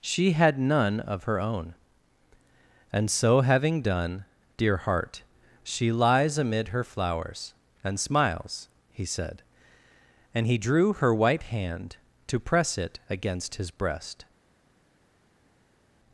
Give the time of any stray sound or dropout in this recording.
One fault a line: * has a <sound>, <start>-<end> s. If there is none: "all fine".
all fine